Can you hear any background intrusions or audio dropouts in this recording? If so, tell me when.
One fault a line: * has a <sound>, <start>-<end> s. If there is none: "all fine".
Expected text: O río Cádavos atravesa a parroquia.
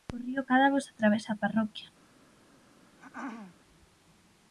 * has a throat clearing, 3.0-3.6 s